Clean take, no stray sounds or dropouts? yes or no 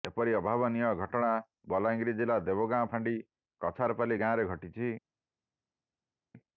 yes